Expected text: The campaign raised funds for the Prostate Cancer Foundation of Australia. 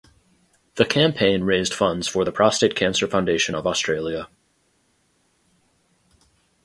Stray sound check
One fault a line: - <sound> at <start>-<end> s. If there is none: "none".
none